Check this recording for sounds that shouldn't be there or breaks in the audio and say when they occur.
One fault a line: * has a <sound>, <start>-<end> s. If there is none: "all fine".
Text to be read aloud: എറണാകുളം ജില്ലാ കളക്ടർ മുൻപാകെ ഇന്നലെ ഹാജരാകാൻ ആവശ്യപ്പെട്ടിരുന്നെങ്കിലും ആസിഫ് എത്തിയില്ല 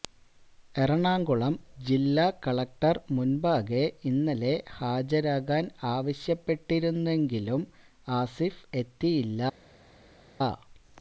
all fine